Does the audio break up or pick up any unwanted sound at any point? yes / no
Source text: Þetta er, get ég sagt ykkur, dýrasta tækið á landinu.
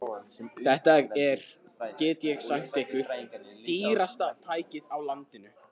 no